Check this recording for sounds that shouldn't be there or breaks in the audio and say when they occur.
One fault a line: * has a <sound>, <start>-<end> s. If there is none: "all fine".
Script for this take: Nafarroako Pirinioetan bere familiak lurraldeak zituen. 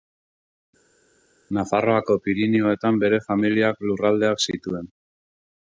all fine